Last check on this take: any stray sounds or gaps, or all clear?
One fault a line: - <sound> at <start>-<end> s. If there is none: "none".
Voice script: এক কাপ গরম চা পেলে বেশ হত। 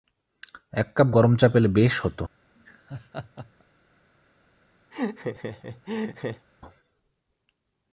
- laugh at 2.6-3.6 s
- laugh at 4.9-6.5 s